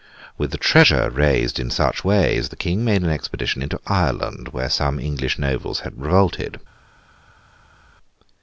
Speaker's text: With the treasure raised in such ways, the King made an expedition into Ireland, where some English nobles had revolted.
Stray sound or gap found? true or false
false